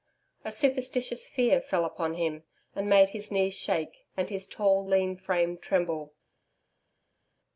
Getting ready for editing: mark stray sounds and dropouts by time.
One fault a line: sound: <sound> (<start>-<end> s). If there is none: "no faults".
no faults